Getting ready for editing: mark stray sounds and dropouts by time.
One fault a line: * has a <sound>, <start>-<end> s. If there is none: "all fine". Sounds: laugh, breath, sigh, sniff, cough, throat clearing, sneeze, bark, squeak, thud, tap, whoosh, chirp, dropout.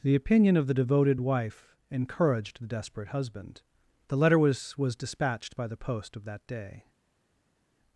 all fine